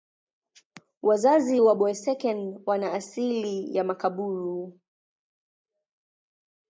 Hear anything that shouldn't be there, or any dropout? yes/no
no